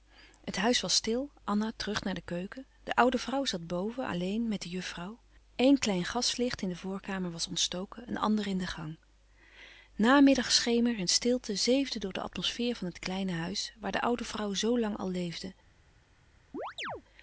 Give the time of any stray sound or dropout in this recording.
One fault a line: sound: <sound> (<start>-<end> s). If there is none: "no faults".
sound: chirp (16.5-17.0 s)